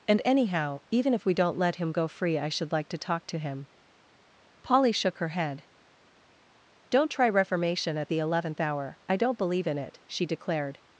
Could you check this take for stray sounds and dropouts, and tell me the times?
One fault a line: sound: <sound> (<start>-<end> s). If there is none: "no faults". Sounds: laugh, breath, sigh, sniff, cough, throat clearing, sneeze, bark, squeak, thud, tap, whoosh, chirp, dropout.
no faults